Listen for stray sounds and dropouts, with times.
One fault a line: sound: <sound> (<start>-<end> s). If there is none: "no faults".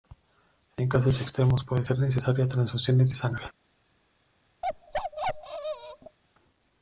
sound: bark (4.6-6.2 s)